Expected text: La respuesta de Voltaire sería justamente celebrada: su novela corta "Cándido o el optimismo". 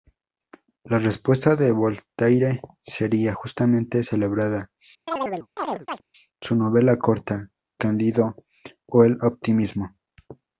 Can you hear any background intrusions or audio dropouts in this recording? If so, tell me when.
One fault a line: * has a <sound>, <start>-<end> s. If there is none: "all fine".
* has a chirp, 5.1-6.0 s